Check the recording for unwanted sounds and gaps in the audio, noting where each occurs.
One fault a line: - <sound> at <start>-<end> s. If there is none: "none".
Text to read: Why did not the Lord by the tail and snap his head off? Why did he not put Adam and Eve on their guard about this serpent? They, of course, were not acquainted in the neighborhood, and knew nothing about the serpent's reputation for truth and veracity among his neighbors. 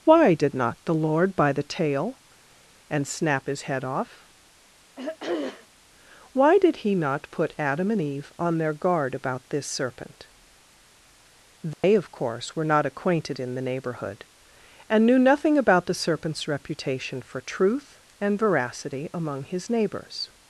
- throat clearing at 5.0-5.7 s
- dropout at 11.7-11.8 s